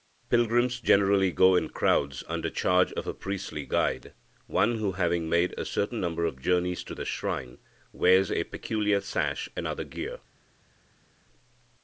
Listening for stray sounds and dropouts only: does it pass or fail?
pass